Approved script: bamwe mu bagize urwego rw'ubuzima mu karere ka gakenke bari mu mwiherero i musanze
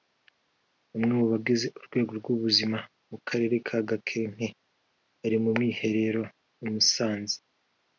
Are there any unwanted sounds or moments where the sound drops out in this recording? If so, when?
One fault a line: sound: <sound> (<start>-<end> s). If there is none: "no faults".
no faults